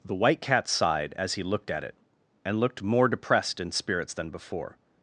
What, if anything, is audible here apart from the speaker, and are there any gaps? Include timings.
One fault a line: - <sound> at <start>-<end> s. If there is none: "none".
none